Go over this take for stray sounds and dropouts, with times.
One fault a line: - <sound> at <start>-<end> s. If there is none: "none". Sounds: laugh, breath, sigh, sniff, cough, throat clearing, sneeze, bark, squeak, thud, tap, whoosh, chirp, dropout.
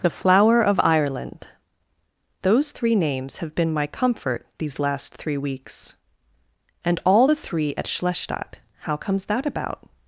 none